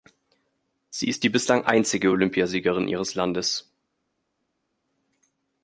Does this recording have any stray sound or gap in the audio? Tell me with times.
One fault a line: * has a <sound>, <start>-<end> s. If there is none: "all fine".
all fine